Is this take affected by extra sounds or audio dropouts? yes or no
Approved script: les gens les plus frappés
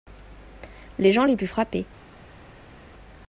no